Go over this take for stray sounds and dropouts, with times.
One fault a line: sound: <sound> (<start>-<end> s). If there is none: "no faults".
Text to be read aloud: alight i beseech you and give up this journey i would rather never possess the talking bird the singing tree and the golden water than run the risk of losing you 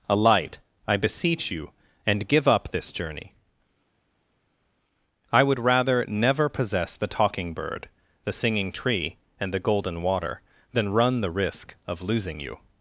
no faults